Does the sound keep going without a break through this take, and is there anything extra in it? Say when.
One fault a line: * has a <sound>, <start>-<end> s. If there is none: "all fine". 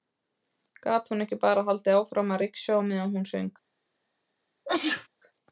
* has a sneeze, 4.6-5.1 s